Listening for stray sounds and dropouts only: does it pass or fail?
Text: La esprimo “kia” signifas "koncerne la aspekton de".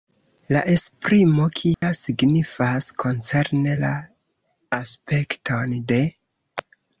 fail